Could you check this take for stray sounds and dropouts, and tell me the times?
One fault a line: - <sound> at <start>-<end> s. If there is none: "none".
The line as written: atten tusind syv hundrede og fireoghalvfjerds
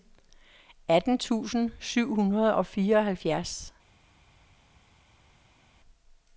none